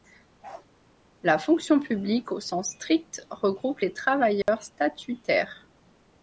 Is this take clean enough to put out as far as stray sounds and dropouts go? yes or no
no